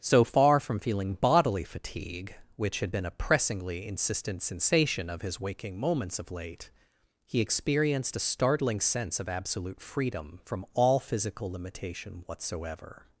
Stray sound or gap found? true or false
false